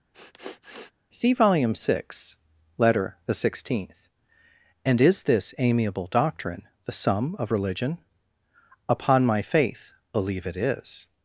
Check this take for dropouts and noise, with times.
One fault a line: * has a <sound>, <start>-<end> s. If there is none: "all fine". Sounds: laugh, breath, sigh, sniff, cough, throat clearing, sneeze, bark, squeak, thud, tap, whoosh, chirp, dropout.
* has a sniff, 0.1-0.9 s